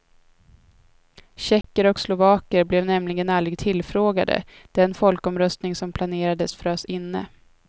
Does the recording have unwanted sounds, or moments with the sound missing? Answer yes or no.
yes